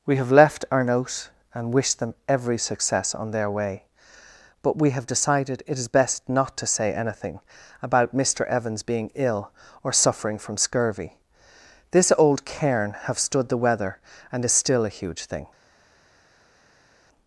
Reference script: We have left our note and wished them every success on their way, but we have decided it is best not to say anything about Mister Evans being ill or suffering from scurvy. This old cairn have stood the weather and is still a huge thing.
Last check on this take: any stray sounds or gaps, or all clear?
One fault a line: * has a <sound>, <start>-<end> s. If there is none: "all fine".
all fine